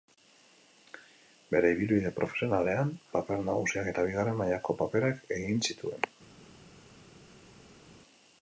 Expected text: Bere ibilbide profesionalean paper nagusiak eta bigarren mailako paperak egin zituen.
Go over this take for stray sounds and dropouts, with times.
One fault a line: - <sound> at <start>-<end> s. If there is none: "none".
none